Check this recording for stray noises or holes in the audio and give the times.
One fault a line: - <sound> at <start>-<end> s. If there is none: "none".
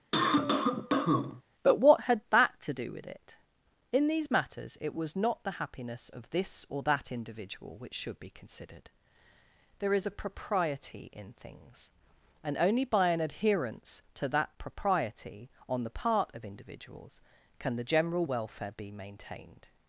- cough at 0.1-1.4 s